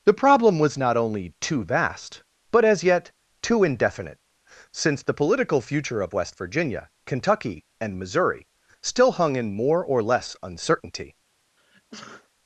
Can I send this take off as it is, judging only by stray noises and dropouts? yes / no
no